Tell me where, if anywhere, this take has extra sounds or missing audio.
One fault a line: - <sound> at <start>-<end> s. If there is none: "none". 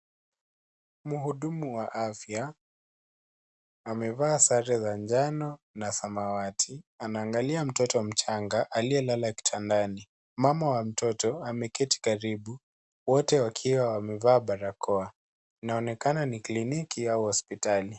none